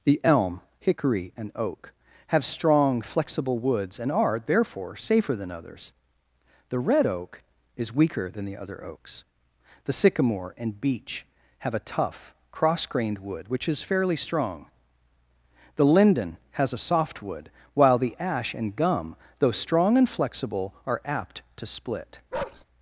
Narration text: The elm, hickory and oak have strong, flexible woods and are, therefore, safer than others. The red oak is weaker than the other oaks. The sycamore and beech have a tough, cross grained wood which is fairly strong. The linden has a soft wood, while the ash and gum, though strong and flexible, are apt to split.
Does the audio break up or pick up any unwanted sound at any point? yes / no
yes